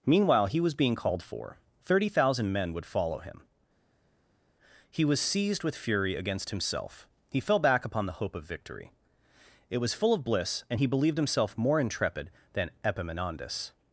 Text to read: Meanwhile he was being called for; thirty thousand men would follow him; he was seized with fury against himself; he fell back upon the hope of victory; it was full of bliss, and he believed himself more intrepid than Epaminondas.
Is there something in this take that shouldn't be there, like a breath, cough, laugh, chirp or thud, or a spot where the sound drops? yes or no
no